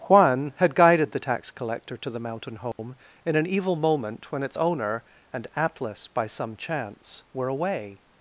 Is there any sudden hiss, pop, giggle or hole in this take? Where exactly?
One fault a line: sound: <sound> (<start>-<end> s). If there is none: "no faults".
sound: dropout (2.7-2.8 s)